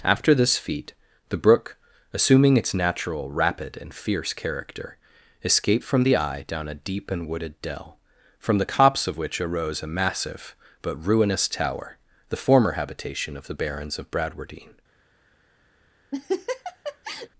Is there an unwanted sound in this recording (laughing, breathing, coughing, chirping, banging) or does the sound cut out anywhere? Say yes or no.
yes